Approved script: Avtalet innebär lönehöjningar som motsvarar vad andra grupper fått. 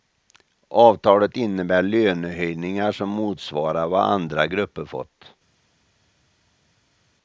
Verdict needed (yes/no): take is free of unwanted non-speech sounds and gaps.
yes